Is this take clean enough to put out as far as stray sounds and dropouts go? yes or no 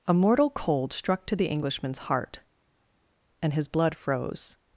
yes